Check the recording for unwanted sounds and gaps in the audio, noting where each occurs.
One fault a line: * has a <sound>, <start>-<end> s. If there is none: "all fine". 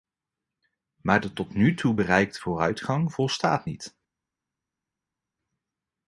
all fine